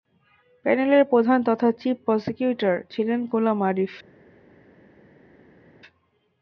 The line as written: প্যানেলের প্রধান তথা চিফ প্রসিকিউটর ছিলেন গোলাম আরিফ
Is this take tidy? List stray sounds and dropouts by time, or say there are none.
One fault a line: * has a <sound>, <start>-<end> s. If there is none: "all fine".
all fine